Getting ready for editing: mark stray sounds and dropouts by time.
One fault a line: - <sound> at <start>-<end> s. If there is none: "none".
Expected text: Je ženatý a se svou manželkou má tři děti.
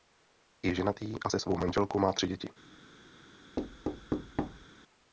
- thud at 3.6-4.7 s